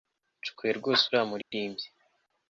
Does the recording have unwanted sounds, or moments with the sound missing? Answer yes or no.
yes